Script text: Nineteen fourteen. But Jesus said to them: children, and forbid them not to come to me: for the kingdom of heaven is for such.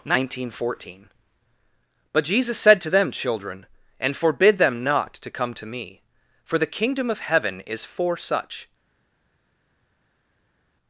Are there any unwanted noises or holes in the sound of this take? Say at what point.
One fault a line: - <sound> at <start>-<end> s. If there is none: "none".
none